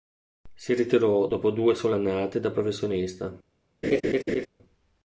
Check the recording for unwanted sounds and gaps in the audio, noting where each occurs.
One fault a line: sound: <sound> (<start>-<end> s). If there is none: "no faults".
sound: laugh (3.8-4.5 s)